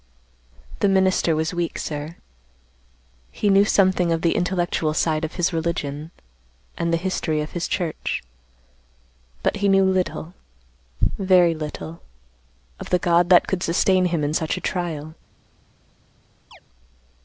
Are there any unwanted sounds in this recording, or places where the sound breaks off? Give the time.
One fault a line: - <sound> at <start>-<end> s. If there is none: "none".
- chirp at 16.5-16.6 s